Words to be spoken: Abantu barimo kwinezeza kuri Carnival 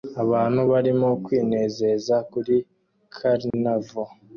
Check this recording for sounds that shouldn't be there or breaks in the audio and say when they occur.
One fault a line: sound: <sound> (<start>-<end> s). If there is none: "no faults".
sound: dropout (3.5-3.5 s)